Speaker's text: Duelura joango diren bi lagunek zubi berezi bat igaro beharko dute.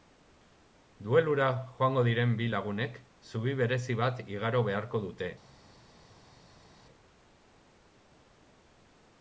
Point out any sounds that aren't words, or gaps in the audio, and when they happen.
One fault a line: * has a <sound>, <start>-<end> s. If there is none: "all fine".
all fine